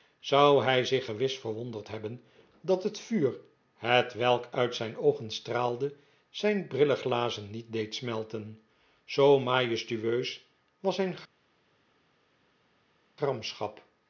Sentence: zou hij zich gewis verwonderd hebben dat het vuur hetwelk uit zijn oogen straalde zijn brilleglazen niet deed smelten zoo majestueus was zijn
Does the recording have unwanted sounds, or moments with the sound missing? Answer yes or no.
no